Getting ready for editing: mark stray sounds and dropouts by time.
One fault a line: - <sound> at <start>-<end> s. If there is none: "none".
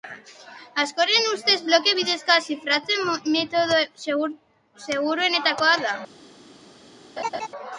- laugh at 7.2-7.5 s